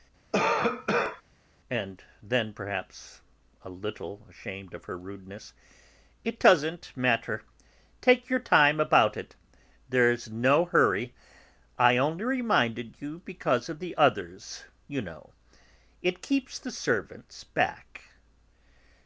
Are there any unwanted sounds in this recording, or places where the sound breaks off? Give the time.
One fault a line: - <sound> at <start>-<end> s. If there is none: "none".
- cough at 0.3-1.2 s